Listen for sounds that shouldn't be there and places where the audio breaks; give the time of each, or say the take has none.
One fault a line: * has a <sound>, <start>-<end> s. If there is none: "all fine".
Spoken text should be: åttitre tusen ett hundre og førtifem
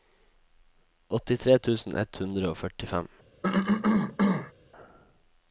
* has a cough, 3.4-4.5 s